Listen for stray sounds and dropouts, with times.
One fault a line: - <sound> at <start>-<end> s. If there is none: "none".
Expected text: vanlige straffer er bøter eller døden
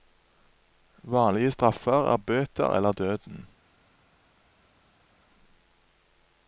none